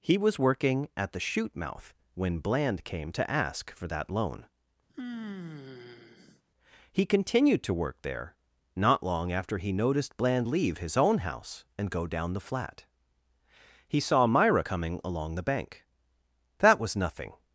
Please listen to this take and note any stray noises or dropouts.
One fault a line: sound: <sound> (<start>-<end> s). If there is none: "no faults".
sound: sigh (4.9-6.4 s)